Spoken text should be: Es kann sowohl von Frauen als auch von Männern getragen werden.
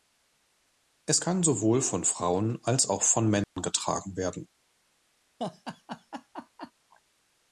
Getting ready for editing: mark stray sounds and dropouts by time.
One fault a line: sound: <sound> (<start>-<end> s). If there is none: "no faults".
sound: dropout (3.4-3.6 s)
sound: laugh (5.4-6.7 s)